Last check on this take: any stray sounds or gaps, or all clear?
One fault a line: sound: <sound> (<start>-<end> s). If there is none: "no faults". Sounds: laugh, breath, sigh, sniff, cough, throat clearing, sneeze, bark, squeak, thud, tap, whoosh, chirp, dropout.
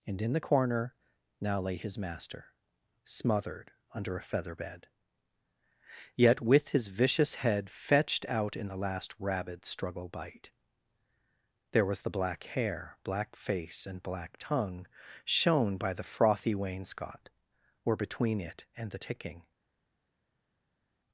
no faults